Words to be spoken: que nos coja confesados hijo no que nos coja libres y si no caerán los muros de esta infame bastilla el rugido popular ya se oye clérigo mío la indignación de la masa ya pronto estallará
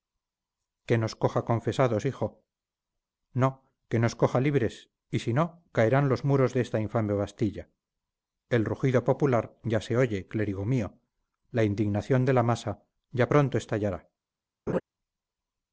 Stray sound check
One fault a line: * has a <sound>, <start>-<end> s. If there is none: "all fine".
* has a laugh, 14.7-14.8 s